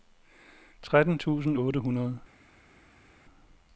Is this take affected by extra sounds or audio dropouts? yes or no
no